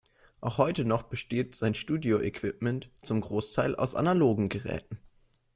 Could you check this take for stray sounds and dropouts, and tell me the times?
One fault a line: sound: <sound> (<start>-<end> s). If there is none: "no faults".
no faults